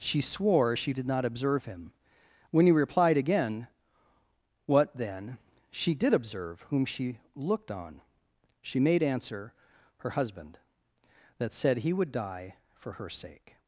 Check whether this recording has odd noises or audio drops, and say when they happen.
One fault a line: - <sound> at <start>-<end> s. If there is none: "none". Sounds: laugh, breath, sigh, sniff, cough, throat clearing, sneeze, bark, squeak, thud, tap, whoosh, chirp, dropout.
none